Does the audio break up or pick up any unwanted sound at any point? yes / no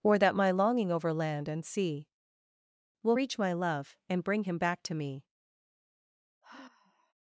yes